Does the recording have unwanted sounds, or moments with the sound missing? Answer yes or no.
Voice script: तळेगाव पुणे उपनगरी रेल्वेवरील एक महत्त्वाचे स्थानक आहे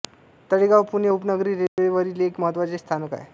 yes